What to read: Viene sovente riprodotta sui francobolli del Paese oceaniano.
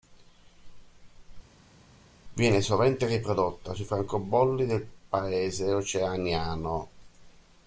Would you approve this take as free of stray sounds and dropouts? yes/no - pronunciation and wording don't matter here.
yes